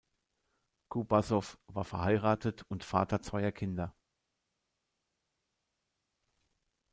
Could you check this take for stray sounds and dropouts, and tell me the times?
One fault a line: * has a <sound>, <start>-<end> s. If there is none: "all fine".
all fine